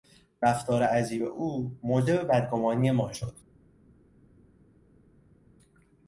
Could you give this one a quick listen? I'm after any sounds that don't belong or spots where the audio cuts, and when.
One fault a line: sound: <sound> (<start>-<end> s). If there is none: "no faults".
no faults